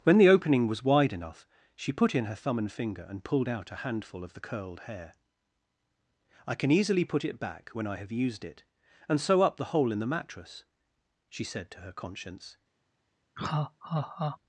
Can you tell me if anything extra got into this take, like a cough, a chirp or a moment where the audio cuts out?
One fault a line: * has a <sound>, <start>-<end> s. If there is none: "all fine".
* has a laugh, 13.4-14.4 s